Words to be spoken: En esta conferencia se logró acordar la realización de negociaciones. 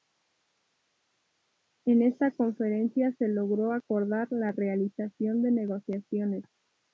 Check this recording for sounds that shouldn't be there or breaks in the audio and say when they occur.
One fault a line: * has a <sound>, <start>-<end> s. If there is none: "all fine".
all fine